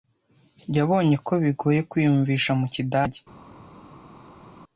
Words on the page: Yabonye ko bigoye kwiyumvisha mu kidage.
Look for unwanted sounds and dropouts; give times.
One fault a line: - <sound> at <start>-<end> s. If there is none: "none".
none